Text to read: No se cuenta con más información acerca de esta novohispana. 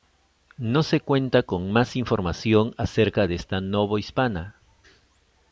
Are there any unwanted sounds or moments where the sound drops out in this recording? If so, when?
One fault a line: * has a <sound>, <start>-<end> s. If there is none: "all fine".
all fine